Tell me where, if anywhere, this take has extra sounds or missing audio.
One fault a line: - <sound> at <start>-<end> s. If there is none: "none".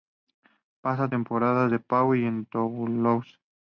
none